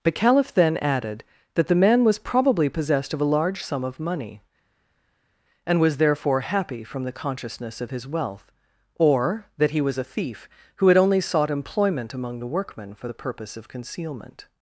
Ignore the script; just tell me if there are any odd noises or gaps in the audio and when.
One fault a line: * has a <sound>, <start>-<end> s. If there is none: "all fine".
all fine